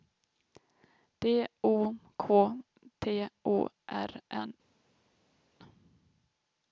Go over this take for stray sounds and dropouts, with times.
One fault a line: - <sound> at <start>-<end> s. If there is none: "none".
none